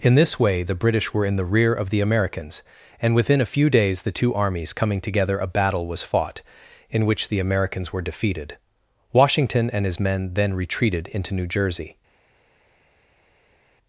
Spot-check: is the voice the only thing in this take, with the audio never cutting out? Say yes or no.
yes